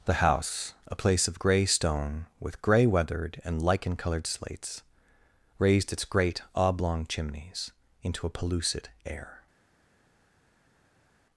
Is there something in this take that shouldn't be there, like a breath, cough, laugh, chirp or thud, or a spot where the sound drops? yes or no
no